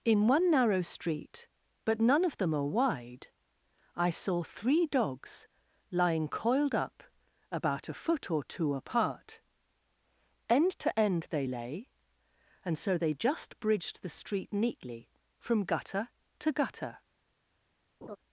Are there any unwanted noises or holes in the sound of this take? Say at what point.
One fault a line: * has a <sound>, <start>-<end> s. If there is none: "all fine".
* has a laugh, 18.0-18.2 s